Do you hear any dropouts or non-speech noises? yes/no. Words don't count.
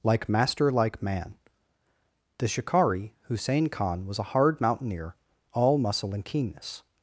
no